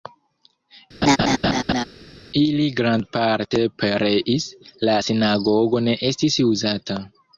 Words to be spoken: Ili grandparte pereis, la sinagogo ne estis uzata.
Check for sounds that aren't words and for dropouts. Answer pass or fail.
fail